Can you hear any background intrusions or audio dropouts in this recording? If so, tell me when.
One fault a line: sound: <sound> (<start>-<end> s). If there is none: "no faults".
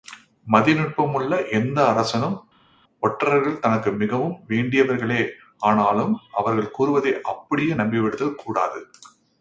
no faults